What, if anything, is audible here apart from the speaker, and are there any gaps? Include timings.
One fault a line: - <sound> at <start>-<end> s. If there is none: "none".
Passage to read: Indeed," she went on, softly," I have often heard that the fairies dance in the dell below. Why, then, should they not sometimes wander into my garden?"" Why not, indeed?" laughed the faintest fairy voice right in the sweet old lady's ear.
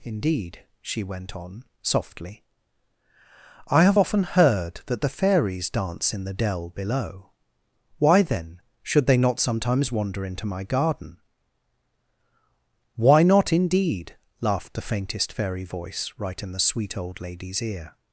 none